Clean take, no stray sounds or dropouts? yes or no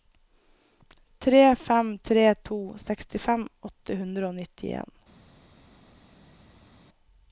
yes